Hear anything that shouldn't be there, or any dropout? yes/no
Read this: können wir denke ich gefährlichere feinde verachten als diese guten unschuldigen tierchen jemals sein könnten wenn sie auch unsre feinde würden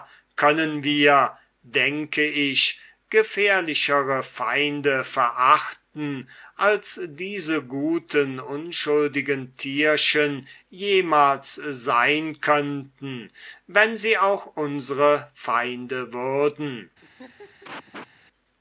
yes